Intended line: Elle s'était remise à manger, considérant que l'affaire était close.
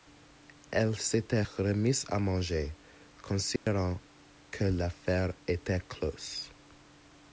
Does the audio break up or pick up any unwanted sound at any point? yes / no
yes